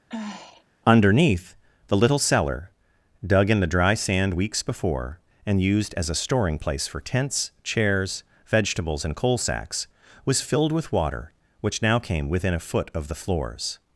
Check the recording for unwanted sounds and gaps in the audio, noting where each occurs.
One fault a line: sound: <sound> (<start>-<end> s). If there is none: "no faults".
sound: sigh (0.1-0.6 s)